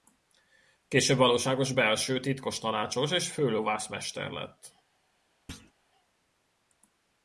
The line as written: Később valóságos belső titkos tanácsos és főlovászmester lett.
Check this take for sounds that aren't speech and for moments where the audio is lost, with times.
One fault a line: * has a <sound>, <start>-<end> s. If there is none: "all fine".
* has a thud, 5.5-5.7 s